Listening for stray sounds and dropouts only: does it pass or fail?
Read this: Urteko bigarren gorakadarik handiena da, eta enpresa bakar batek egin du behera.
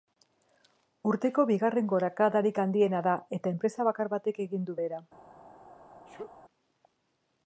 fail